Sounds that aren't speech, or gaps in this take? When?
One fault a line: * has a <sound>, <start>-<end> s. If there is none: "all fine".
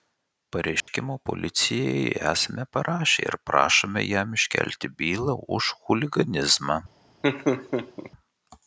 * has a dropout, 0.8-0.9 s
* has a laugh, 7.2-8.1 s